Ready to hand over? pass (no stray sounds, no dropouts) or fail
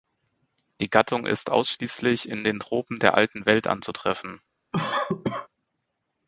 fail